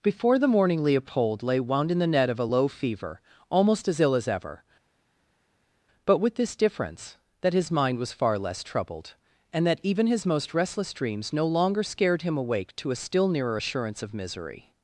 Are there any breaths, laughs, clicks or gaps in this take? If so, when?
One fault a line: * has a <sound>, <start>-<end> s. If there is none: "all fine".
all fine